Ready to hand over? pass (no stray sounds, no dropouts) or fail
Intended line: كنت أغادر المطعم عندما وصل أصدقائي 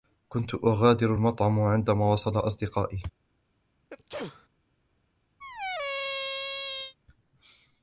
fail